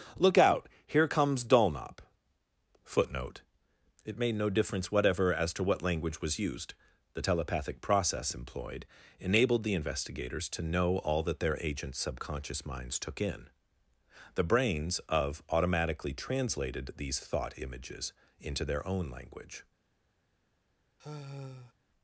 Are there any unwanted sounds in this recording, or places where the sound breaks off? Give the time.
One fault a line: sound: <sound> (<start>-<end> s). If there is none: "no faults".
sound: sigh (21.0-21.7 s)